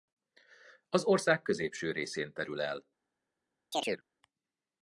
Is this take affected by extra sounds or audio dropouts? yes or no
yes